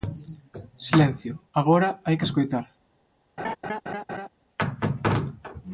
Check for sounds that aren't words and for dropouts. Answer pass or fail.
fail